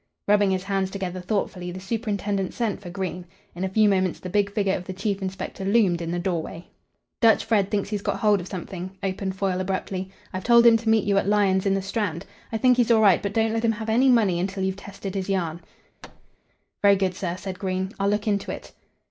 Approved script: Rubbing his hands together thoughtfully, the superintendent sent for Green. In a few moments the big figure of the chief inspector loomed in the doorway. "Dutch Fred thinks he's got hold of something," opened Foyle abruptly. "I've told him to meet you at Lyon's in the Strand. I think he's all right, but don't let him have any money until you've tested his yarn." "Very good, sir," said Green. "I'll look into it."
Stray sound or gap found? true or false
true